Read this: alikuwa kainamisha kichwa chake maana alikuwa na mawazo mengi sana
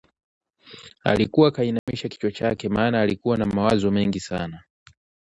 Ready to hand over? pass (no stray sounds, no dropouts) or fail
fail